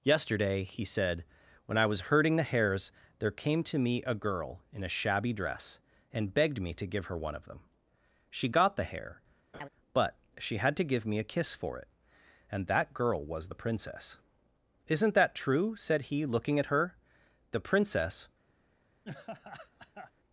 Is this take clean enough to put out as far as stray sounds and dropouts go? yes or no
no